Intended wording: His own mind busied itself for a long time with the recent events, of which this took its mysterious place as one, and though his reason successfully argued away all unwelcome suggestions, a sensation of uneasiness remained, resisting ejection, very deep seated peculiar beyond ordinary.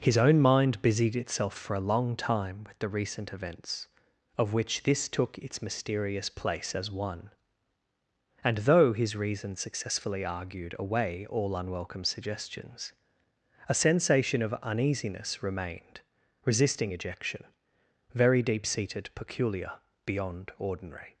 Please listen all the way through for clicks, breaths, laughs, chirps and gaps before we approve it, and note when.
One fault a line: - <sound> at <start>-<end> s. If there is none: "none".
none